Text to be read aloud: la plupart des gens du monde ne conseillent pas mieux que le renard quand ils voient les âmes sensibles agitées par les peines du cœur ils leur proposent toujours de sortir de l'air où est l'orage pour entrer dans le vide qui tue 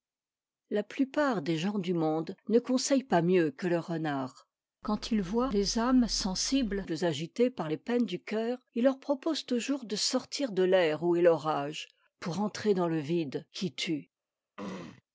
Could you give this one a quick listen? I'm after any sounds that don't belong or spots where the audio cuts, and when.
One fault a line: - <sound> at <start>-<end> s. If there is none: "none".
- throat clearing at 14.6-15.0 s